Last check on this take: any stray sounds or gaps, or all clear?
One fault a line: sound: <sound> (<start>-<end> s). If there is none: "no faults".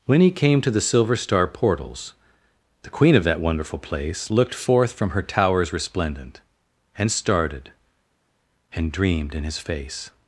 no faults